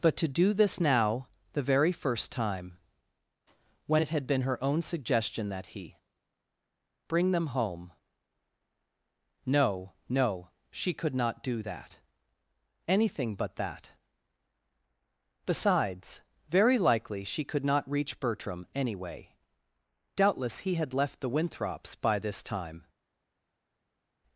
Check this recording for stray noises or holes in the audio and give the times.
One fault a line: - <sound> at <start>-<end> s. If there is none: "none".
none